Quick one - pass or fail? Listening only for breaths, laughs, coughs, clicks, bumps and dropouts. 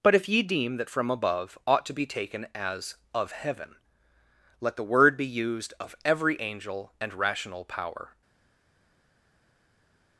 pass